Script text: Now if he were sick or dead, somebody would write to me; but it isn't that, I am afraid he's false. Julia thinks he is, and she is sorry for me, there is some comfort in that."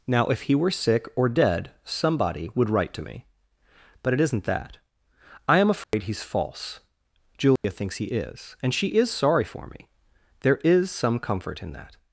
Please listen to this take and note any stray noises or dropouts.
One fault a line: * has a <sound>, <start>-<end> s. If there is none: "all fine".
* has a dropout, 5.8-5.9 s
* has a dropout, 7.6-7.6 s